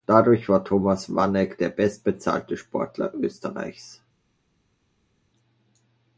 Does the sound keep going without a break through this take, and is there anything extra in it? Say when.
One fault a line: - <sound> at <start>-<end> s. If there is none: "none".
none